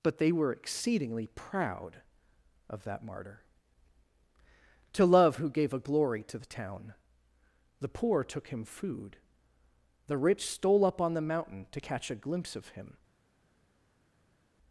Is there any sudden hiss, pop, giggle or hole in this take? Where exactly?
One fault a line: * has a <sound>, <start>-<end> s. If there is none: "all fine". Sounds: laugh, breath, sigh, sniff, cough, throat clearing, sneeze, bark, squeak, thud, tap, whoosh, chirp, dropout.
all fine